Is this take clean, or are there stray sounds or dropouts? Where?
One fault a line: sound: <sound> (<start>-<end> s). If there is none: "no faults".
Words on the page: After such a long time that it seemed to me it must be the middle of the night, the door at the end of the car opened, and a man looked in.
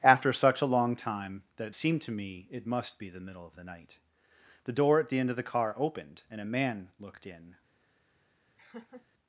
sound: laugh (8.6-9.1 s)